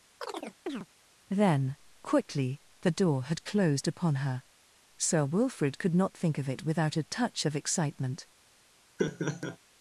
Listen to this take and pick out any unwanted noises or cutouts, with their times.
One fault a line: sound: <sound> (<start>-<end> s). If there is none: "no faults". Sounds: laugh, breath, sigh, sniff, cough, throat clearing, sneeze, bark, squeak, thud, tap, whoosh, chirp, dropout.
sound: chirp (0.2-0.9 s)
sound: laugh (9.0-9.6 s)